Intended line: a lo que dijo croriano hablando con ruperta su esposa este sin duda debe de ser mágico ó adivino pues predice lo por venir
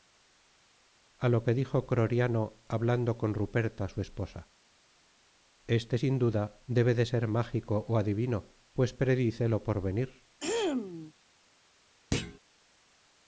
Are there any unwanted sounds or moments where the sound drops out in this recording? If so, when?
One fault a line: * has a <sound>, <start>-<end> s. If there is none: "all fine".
* has a throat clearing, 10.4-11.1 s
* has a thud, 12.1-12.4 s